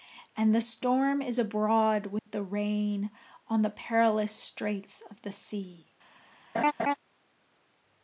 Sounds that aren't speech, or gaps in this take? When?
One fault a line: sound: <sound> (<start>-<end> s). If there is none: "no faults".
sound: dropout (2.2-2.3 s)
sound: laugh (6.5-6.9 s)